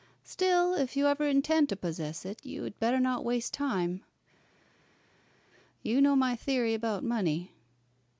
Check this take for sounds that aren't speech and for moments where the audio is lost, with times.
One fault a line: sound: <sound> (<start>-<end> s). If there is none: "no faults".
no faults